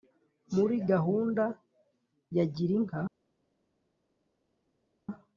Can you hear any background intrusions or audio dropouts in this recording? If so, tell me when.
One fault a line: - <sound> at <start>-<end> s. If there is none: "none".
none